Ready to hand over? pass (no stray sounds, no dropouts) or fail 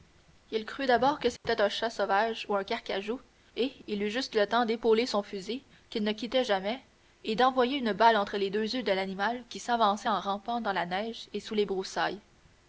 fail